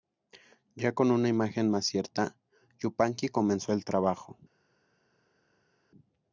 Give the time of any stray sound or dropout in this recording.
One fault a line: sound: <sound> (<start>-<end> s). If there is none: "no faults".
no faults